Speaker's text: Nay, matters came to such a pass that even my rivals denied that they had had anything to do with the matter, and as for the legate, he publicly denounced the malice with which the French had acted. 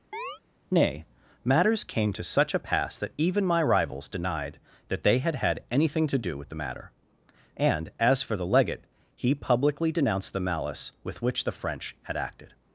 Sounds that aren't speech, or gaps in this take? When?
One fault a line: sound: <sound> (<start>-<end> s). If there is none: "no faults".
sound: chirp (0.1-0.4 s)